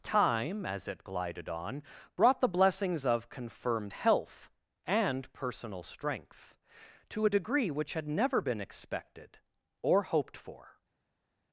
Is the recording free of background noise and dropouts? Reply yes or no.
yes